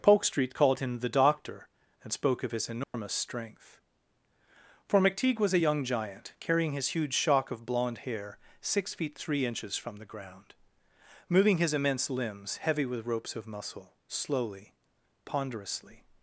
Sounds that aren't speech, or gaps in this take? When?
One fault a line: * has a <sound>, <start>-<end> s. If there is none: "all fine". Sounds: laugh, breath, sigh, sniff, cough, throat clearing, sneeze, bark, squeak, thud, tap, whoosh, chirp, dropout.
* has a dropout, 2.8-2.9 s